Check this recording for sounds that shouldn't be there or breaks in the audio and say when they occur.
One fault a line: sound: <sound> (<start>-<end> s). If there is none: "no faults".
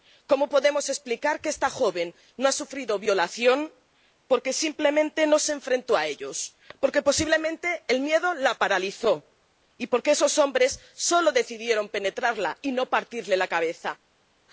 no faults